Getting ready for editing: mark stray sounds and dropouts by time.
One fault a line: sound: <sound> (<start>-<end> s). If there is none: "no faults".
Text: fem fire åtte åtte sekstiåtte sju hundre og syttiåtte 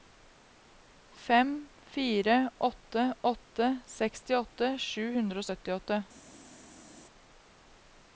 no faults